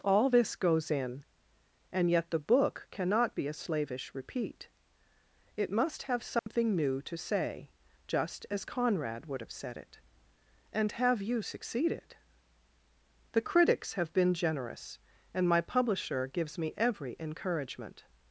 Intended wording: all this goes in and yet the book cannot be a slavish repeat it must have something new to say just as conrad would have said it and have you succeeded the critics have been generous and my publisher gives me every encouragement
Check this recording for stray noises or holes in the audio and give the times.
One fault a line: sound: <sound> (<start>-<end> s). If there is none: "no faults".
sound: dropout (6.4-6.5 s)